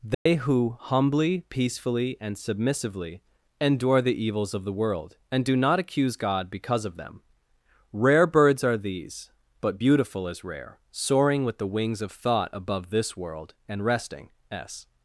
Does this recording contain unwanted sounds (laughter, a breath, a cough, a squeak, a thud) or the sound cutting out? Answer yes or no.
yes